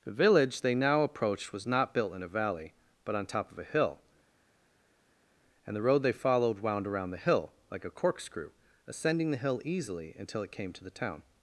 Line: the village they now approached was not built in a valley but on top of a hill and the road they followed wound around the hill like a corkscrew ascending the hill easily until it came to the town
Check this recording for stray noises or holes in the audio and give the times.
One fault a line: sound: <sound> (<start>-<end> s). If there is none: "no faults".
no faults